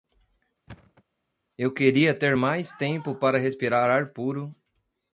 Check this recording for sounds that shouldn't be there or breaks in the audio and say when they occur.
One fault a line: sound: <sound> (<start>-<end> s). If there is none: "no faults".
sound: thud (0.7-1.0 s)